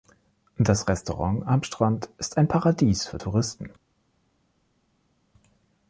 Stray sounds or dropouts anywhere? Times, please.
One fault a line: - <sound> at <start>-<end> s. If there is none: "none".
none